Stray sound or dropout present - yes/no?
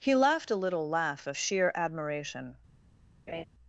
yes